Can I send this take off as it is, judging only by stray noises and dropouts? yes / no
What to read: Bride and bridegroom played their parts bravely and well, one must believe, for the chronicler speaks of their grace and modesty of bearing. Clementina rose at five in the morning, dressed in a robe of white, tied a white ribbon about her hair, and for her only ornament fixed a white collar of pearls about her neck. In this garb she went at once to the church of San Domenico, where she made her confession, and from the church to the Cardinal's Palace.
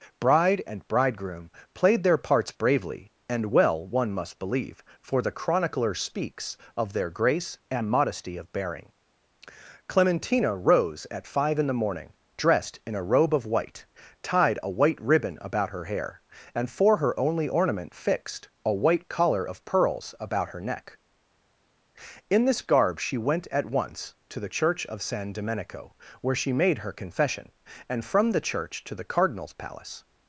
yes